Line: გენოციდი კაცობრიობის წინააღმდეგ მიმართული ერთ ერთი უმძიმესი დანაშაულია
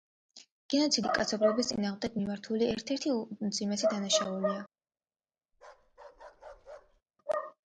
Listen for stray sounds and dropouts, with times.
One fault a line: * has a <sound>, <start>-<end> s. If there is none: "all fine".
* has a bark, 5.5-7.0 s